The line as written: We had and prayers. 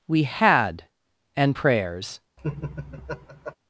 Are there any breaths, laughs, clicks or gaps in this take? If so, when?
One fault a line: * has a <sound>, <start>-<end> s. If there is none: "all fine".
* has a laugh, 2.4-3.6 s